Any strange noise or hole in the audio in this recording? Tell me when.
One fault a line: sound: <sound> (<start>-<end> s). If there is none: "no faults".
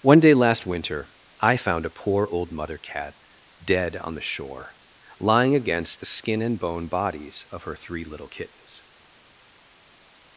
no faults